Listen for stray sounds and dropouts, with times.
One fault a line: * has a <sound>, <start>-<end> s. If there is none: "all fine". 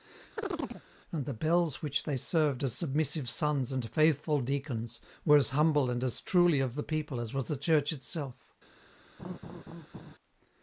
* has a chirp, 0.4-0.8 s
* has a laugh, 9.2-10.2 s